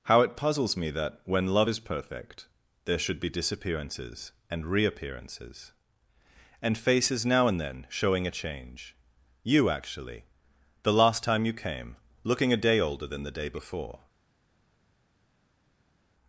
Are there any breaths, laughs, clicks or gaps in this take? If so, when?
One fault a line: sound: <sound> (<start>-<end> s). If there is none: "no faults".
no faults